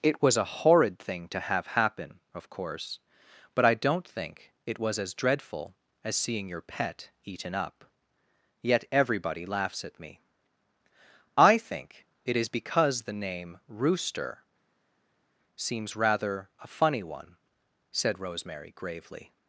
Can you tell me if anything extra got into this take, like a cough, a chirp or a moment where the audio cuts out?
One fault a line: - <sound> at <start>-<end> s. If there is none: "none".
none